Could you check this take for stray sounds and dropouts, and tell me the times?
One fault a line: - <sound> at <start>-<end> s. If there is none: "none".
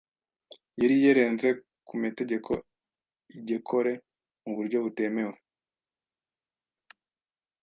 none